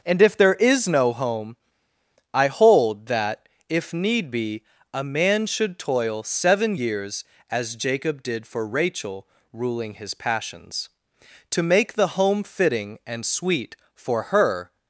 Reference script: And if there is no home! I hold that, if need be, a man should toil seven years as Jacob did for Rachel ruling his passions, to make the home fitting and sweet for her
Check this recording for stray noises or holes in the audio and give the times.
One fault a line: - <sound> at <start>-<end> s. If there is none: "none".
none